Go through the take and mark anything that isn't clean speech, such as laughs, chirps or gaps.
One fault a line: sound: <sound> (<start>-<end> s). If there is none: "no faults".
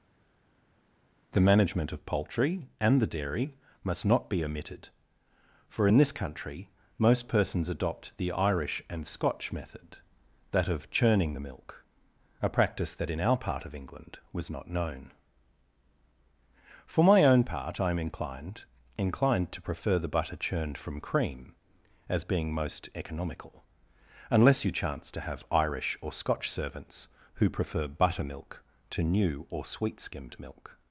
no faults